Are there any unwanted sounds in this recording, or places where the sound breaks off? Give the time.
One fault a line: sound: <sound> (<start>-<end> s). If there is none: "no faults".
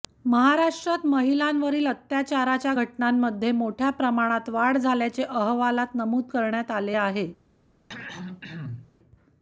sound: throat clearing (7.9-8.9 s)